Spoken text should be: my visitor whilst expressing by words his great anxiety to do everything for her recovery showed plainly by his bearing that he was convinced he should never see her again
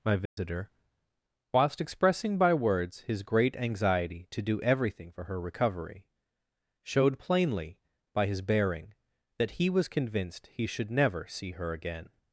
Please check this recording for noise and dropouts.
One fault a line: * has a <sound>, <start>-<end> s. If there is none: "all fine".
* has a dropout, 0.3-0.4 s